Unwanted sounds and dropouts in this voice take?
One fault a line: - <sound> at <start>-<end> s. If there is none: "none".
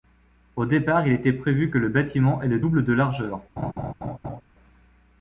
- laugh at 3.6-4.4 s